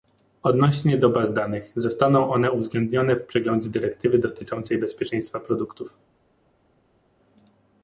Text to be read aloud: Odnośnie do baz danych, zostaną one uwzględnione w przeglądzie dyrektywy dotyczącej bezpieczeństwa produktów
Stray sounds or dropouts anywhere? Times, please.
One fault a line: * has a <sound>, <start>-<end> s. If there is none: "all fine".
all fine